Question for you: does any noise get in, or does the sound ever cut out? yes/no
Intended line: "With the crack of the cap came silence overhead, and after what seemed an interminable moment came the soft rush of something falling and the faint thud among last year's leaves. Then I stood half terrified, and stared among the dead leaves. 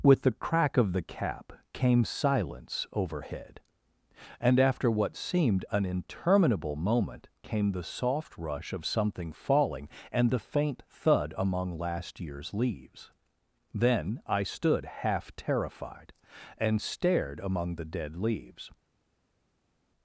no